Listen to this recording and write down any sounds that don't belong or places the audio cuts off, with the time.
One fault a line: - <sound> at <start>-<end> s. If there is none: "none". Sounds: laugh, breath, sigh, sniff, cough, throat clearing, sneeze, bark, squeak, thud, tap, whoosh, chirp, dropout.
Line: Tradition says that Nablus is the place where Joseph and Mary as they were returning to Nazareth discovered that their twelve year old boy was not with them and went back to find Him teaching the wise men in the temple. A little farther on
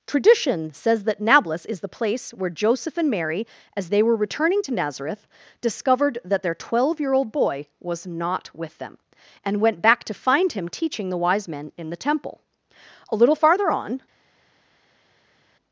none